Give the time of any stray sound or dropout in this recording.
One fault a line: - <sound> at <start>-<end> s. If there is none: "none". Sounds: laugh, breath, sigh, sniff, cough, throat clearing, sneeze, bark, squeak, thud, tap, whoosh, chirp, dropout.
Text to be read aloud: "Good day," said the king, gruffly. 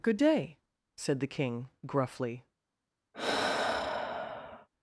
- sigh at 3.1-4.7 s